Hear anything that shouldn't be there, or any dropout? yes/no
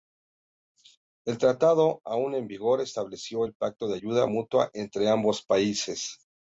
no